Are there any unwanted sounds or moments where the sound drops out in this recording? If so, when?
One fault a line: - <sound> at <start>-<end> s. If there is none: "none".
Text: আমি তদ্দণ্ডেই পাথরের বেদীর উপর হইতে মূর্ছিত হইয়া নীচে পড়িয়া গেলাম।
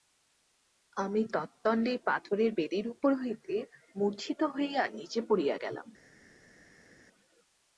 none